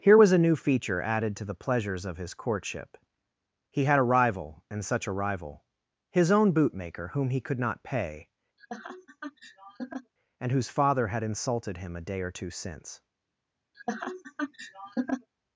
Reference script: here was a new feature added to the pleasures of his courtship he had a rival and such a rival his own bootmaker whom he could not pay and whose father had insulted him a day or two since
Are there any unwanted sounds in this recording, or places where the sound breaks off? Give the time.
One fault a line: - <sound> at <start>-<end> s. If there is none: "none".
- laugh at 8.6-10.1 s
- laugh at 13.7-15.3 s